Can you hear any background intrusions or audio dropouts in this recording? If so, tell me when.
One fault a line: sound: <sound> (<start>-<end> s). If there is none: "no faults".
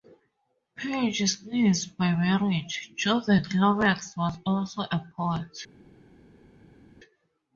no faults